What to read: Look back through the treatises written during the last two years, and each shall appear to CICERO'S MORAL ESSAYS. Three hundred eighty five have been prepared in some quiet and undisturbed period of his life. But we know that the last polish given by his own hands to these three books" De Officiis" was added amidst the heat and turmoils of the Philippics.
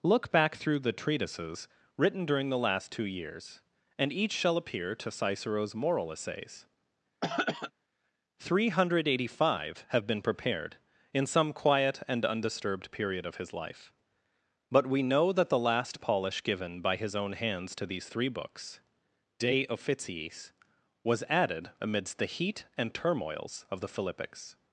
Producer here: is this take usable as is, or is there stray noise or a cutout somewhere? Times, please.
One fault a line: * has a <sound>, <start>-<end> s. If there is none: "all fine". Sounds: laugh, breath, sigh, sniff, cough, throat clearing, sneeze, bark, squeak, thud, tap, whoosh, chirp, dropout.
* has a throat clearing, 7.2-7.7 s